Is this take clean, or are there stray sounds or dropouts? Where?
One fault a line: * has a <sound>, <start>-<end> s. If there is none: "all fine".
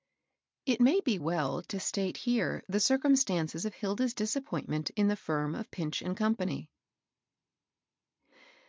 all fine